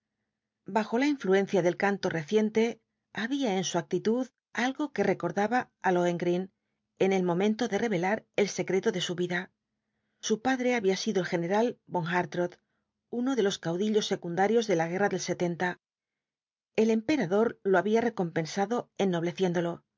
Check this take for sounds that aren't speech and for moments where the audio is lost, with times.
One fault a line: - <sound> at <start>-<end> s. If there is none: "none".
none